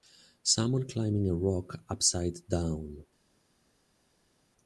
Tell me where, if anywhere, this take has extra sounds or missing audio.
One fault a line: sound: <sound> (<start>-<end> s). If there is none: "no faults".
no faults